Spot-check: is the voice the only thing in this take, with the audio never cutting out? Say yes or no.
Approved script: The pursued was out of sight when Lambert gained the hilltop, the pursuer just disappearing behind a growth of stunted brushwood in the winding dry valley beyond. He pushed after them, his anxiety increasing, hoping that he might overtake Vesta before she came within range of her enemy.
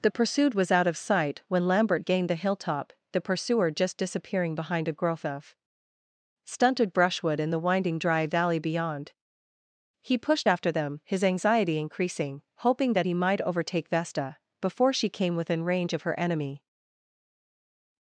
yes